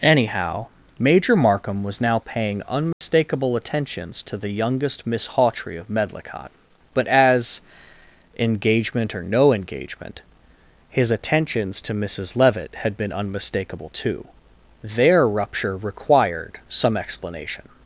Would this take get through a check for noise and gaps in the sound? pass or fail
fail